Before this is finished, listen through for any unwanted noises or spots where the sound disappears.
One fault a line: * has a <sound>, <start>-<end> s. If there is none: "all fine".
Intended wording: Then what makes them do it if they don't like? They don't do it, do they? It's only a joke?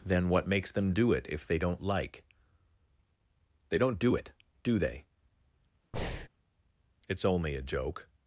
* has a breath, 5.9-6.3 s